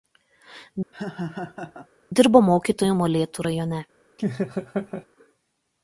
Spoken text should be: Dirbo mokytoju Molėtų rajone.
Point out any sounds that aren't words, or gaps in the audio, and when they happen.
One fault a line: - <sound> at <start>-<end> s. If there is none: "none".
- laugh at 0.9-1.9 s
- laugh at 4.2-5.1 s